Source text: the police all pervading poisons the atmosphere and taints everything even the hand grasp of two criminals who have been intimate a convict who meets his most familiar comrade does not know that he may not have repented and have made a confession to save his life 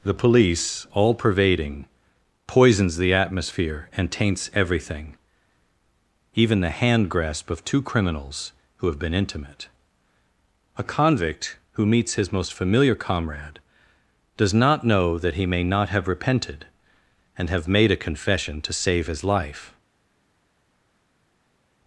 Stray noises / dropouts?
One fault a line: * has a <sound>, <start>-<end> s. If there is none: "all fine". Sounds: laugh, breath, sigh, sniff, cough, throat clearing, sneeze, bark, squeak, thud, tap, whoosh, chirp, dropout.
all fine